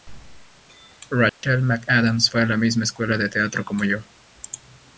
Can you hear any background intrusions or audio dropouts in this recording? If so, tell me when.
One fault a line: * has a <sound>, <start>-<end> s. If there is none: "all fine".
* has a dropout, 1.3-1.4 s